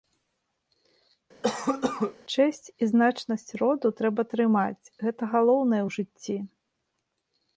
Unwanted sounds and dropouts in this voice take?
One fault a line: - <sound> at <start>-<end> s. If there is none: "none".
- cough at 1.4-2.2 s